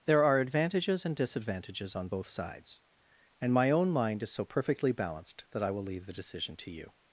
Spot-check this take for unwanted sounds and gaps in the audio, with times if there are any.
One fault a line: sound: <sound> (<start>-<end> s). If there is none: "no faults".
no faults